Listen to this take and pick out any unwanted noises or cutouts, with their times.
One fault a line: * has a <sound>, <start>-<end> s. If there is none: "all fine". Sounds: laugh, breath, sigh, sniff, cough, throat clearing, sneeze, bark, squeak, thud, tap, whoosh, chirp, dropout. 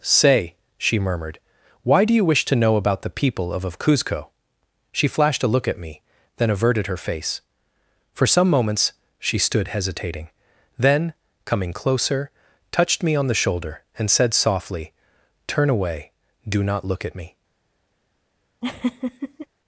* has a laugh, 18.6-19.5 s